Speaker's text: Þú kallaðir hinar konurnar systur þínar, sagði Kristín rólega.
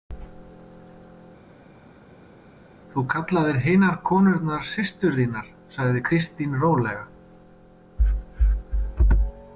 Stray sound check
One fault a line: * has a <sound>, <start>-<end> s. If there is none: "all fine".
all fine